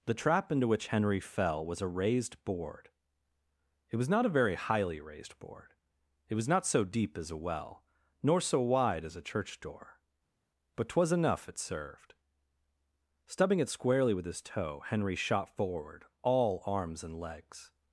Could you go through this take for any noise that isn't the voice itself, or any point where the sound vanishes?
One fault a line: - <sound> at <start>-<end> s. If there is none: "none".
none